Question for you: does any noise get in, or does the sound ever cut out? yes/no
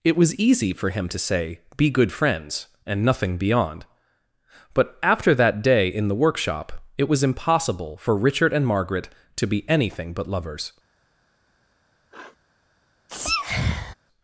yes